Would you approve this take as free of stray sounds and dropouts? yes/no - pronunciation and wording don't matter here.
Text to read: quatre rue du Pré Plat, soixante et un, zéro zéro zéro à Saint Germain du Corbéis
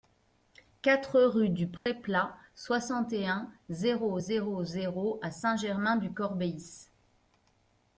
no